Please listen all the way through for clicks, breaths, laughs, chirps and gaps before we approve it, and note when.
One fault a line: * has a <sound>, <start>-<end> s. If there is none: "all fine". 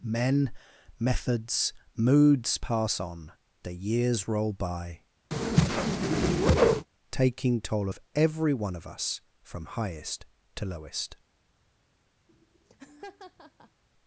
* has a whoosh, 5.3-6.9 s
* has a laugh, 12.3-13.8 s